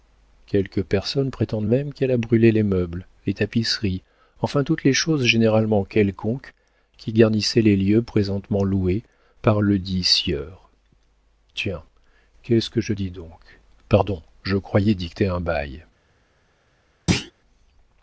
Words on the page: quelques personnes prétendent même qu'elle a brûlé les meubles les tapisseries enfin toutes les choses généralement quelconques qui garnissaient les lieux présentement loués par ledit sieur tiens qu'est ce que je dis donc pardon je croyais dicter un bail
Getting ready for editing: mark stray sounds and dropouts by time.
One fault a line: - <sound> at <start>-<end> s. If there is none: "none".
- thud at 17.1-17.3 s